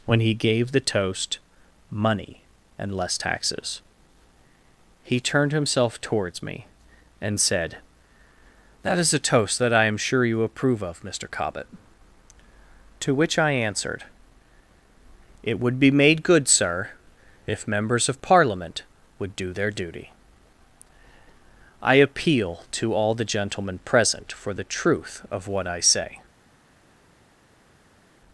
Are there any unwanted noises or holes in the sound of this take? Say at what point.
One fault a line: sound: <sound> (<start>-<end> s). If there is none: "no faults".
no faults